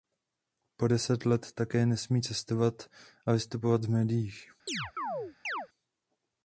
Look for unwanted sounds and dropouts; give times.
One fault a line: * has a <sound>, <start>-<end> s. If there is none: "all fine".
* has a chirp, 4.7-5.7 s